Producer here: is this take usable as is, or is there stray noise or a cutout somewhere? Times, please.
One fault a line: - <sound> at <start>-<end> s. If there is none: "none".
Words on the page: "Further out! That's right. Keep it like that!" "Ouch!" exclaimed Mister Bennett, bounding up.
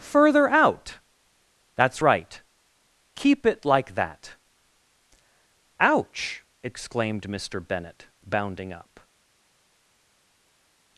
none